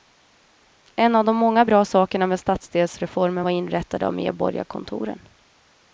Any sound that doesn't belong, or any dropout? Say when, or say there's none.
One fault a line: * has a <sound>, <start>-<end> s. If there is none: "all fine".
all fine